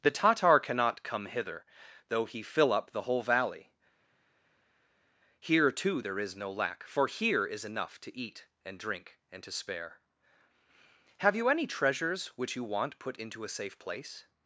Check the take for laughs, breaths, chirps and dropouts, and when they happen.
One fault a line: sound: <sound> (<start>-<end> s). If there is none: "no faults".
no faults